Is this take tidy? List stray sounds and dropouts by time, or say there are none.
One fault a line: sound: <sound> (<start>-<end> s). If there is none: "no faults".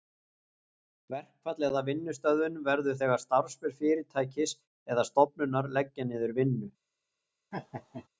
sound: laugh (7.5-8.1 s)